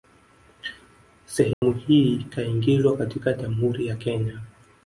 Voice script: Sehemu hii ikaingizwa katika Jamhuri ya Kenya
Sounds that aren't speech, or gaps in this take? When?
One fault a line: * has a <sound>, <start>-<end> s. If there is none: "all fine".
* has a dropout, 1.5-1.6 s